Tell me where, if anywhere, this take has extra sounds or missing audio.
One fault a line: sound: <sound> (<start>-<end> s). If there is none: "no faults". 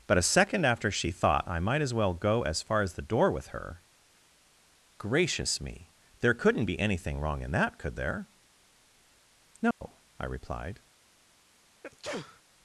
sound: dropout (9.7-9.8 s)
sound: sneeze (11.8-12.4 s)